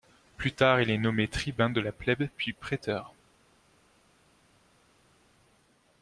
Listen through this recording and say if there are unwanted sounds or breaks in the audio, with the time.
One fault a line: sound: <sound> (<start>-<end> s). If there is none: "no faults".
no faults